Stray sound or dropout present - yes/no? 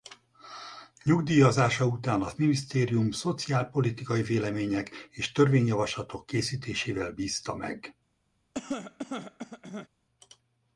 yes